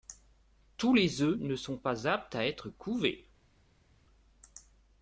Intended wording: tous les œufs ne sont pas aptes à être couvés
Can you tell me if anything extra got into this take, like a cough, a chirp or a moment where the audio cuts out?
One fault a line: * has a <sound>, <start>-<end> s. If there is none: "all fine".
all fine